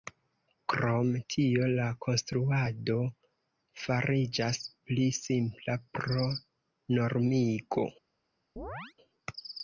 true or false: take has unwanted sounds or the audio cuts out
true